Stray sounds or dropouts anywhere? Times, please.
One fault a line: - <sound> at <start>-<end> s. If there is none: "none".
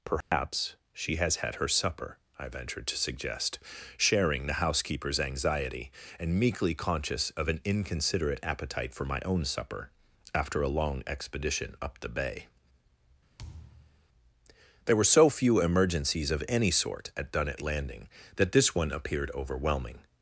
- dropout at 0.2-0.3 s
- thud at 13.4-14.1 s